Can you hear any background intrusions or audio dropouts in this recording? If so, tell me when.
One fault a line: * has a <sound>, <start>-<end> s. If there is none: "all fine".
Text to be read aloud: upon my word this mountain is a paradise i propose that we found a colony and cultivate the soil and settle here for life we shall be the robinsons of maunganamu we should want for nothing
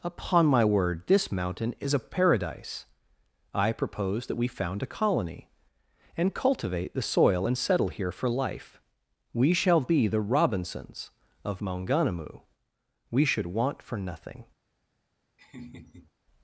* has a laugh, 15.4-16.1 s